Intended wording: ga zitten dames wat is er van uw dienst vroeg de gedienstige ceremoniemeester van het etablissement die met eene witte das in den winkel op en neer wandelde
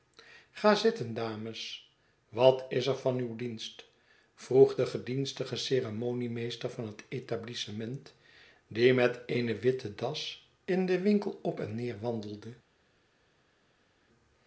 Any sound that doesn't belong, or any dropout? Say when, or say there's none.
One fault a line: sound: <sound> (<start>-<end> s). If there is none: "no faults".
no faults